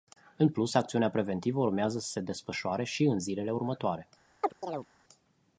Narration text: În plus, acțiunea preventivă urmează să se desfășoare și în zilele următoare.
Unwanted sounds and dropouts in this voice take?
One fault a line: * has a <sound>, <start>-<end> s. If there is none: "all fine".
* has a chirp, 4.4-4.9 s